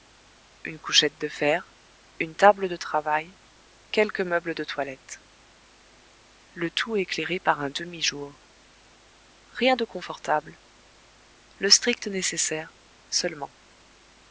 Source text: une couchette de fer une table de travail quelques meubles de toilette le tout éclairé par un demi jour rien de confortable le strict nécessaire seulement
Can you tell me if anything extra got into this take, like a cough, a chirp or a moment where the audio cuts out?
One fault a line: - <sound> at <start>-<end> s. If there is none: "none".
none